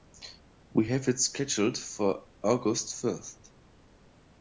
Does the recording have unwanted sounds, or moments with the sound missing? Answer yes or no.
no